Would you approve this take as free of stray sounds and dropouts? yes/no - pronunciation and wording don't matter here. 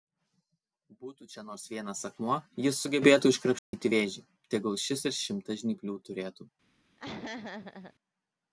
no